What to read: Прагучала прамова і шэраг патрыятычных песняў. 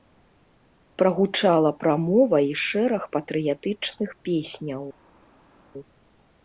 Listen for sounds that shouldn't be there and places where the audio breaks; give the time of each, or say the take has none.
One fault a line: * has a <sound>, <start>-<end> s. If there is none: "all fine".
all fine